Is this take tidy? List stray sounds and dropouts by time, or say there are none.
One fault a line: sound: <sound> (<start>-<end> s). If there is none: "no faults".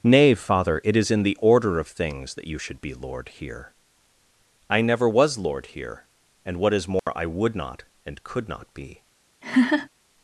sound: dropout (7.0-7.1 s)
sound: laugh (9.4-9.9 s)